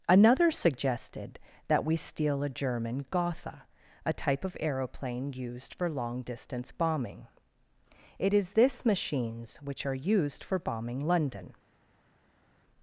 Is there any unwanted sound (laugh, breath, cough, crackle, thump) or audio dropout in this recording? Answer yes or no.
no